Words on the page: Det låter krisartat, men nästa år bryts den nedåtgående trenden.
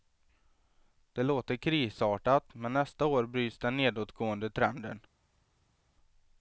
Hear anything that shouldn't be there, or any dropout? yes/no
no